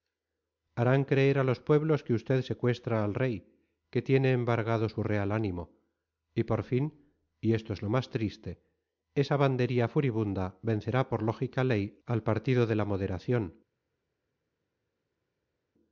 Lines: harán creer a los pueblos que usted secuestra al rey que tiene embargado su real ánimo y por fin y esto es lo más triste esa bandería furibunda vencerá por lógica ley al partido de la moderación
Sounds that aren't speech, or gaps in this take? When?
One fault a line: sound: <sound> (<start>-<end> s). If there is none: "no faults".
no faults